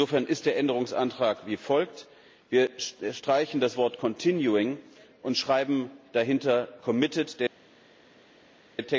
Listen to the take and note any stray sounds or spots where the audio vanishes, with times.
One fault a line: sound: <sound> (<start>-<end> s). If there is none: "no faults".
no faults